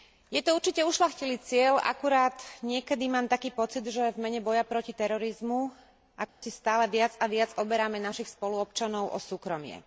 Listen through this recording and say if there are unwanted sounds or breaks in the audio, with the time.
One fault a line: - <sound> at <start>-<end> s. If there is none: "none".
- dropout at 6.3-6.4 s